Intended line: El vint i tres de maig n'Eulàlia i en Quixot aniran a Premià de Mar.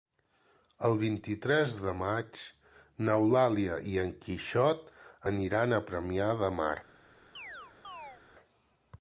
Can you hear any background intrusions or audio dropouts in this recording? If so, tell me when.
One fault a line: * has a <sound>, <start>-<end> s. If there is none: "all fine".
* has a chirp, 7.4-8.2 s